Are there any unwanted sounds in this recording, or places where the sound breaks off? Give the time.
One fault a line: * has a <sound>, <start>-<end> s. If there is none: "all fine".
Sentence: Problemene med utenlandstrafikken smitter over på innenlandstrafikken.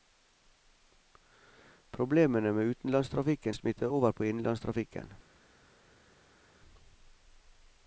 all fine